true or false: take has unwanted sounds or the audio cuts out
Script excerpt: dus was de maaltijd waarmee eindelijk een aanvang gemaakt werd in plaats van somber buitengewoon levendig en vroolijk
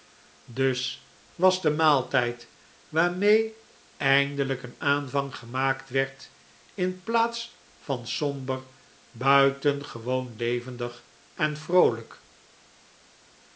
false